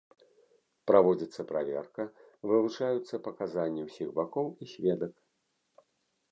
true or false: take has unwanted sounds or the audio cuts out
false